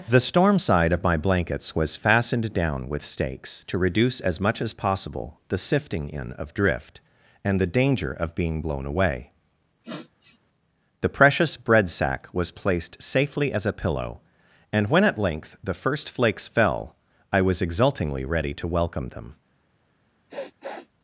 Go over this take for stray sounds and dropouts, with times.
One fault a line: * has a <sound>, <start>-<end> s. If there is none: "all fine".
* has a sniff, 9.8-10.4 s
* has a sniff, 20.3-20.9 s